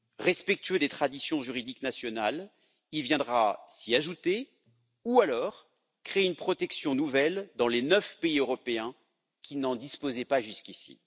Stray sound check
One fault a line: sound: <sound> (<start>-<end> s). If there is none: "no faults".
no faults